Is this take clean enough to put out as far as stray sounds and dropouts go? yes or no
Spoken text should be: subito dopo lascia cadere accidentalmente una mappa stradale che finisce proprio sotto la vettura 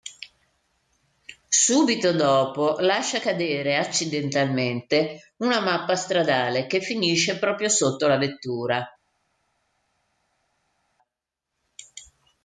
yes